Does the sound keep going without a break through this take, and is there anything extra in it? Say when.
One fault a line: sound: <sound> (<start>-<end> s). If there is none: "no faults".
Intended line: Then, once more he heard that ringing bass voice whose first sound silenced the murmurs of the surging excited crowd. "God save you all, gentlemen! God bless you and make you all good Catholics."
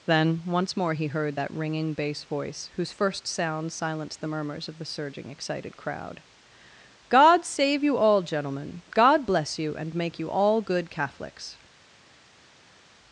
no faults